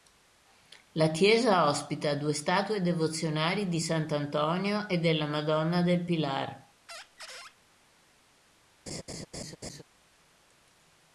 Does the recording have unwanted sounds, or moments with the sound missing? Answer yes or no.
yes